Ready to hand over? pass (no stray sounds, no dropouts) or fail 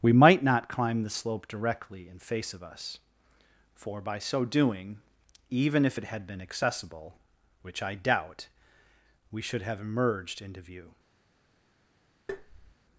fail